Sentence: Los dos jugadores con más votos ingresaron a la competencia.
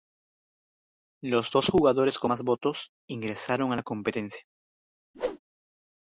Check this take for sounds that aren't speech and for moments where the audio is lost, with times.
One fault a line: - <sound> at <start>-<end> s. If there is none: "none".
- whoosh at 5.1-5.4 s